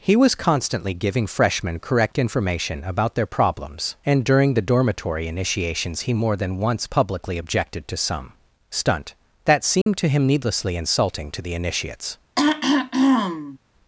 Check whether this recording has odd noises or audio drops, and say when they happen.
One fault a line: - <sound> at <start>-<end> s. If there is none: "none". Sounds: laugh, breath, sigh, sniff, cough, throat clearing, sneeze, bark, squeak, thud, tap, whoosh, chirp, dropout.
- dropout at 9.8-9.9 s
- throat clearing at 12.4-13.6 s